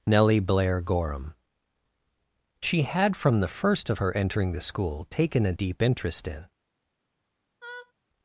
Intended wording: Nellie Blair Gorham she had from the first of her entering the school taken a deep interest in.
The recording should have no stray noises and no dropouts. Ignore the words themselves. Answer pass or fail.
fail